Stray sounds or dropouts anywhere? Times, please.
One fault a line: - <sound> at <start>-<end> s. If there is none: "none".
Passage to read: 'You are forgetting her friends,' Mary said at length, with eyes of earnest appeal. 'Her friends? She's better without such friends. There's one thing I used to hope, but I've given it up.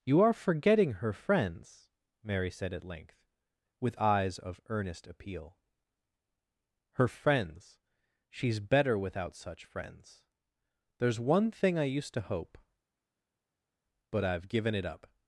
none